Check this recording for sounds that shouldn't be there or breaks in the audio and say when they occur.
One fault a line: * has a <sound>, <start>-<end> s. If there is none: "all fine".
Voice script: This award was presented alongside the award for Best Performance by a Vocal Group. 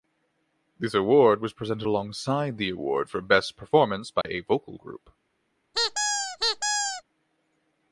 * has a dropout, 4.2-4.2 s
* has a squeak, 5.7-7.0 s